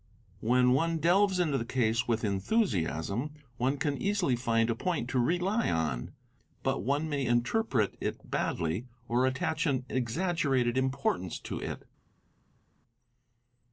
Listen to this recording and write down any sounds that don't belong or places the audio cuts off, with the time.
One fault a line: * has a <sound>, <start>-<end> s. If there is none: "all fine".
all fine